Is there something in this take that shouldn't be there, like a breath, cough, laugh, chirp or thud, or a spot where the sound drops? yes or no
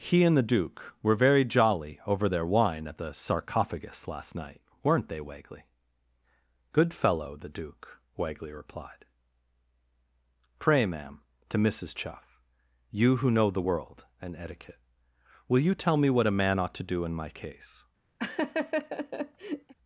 yes